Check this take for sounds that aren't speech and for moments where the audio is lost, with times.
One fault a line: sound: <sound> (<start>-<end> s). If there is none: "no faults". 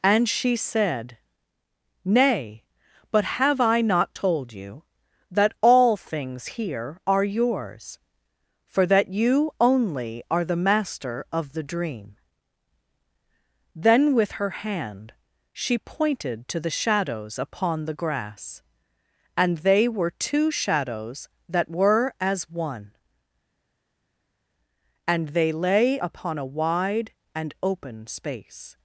no faults